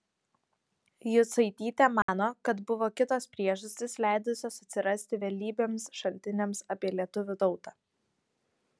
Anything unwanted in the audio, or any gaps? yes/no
yes